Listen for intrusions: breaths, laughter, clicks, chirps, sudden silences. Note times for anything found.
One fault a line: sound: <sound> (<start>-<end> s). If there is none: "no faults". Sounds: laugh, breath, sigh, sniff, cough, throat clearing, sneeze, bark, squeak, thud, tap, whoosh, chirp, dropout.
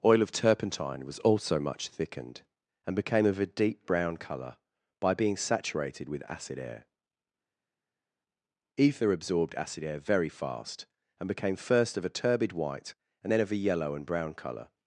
no faults